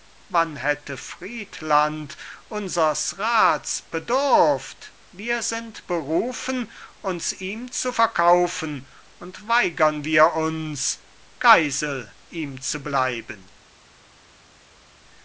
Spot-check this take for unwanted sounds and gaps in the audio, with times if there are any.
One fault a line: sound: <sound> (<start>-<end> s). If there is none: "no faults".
no faults